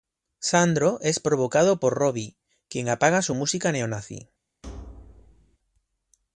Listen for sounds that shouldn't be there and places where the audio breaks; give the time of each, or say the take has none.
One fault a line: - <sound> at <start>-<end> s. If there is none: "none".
- thud at 4.6-5.6 s